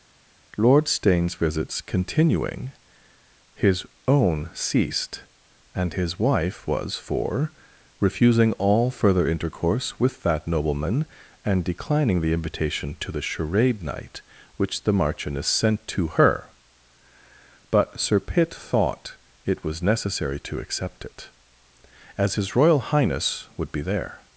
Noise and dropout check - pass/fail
pass